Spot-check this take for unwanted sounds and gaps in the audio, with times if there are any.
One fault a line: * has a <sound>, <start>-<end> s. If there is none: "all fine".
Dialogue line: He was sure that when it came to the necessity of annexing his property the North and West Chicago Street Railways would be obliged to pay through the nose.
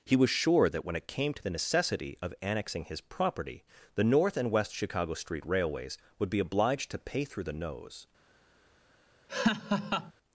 * has a laugh, 9.3-10.1 s